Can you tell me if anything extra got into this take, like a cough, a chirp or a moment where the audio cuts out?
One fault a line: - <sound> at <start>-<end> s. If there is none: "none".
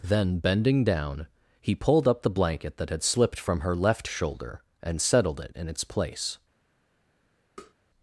- tap at 7.6-7.7 s